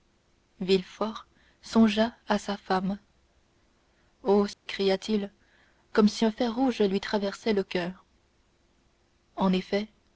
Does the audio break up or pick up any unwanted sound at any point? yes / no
yes